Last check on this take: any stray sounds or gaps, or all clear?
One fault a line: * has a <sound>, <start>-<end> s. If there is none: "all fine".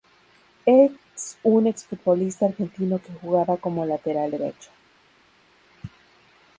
all fine